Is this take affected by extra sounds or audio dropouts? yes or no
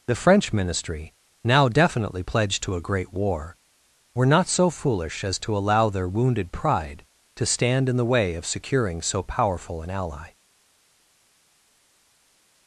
no